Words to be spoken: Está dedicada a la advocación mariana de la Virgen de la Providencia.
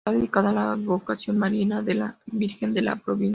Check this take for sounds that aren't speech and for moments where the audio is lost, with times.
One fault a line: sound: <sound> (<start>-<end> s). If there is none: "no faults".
no faults